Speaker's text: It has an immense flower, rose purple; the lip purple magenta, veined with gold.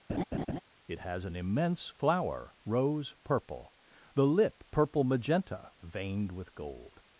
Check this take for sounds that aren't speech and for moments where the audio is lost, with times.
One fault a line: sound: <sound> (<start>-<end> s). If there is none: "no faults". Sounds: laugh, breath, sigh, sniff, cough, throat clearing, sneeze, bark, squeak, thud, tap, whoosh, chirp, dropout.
sound: laugh (0.1-0.6 s)